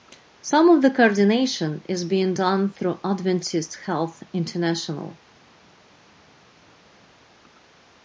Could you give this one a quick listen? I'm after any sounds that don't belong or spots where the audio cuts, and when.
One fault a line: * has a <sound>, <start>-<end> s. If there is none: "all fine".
all fine